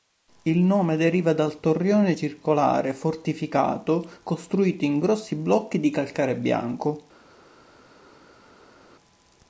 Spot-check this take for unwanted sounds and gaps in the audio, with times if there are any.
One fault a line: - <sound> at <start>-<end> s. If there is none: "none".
none